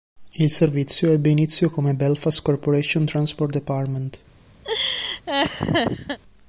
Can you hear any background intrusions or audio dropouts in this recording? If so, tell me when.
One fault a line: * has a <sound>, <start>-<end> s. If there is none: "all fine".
* has a laugh, 4.6-6.2 s